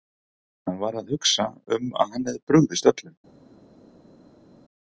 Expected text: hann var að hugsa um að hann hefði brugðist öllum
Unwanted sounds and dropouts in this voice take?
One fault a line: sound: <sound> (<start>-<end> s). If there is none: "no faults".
no faults